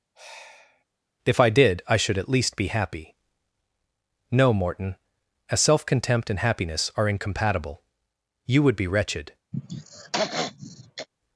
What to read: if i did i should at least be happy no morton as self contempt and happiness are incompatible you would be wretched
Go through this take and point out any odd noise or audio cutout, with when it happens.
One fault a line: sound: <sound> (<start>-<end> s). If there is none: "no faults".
sound: sigh (0.1-0.8 s)
sound: throat clearing (9.5-11.1 s)